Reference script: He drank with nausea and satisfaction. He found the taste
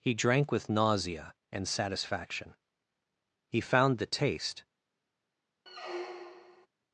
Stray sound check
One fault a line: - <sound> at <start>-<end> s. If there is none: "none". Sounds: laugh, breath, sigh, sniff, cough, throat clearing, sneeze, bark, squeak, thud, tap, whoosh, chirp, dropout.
- squeak at 5.7-6.7 s